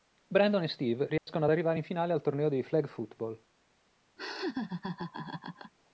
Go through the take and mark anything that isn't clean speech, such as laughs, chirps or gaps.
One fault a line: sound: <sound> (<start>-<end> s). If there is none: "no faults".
sound: dropout (1.2-1.3 s)
sound: laugh (4.2-5.7 s)